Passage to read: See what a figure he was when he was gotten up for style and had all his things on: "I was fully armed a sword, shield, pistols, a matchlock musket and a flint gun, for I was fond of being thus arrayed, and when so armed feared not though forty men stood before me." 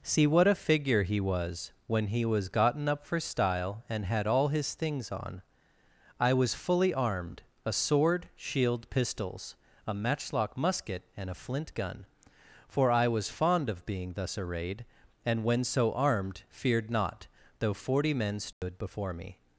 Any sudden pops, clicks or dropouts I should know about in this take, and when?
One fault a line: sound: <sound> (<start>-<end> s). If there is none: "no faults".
sound: dropout (18.5-18.6 s)